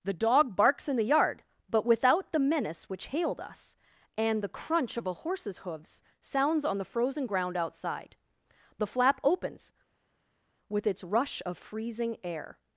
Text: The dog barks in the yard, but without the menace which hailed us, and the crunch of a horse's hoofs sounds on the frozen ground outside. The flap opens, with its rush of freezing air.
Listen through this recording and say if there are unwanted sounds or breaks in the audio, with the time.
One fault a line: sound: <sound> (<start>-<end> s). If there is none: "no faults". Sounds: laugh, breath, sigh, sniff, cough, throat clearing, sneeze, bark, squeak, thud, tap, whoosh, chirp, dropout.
no faults